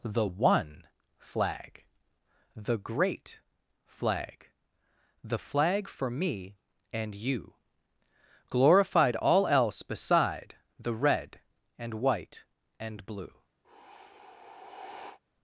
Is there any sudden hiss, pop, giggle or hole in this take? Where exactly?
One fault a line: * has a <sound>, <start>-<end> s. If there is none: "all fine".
* has a sigh, 13.6-15.2 s